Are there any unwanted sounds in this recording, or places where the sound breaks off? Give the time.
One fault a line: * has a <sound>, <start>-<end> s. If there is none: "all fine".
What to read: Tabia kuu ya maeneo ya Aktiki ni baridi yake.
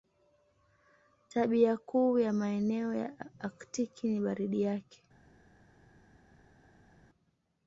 all fine